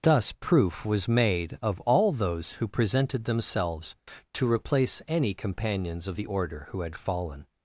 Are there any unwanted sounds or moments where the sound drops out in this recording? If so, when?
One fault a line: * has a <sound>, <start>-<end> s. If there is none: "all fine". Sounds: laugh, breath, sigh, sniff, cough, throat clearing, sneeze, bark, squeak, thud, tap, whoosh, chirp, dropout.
all fine